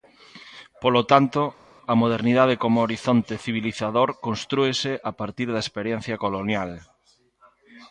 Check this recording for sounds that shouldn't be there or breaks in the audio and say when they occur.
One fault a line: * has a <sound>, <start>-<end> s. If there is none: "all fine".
all fine